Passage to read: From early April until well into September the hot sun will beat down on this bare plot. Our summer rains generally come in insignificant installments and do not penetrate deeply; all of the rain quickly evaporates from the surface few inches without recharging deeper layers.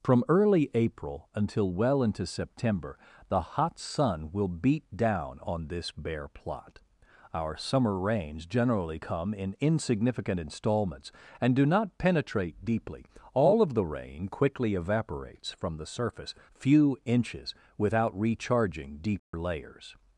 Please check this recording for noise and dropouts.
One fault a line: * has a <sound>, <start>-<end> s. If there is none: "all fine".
* has a dropout, 19.2-19.3 s